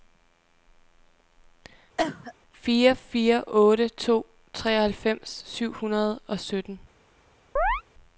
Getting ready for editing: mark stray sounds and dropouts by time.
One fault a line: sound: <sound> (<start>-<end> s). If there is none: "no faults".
sound: cough (2.0-2.3 s)
sound: chirp (7.6-7.8 s)